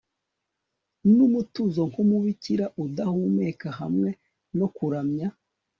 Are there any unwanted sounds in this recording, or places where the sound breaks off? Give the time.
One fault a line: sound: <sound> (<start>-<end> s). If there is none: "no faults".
no faults